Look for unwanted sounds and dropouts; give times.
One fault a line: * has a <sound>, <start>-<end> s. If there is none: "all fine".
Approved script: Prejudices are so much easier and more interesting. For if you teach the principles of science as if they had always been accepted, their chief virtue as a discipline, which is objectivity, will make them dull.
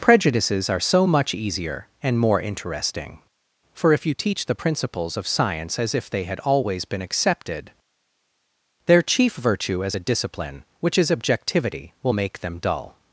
all fine